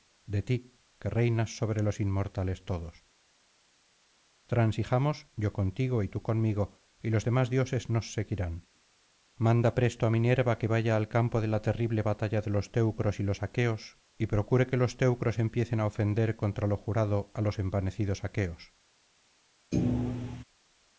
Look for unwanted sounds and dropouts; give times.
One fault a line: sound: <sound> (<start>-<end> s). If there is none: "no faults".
sound: thud (19.7-20.4 s)